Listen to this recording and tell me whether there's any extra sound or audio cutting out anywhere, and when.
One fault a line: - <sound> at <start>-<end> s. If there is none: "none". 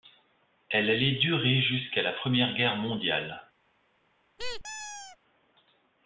- squeak at 4.4-5.2 s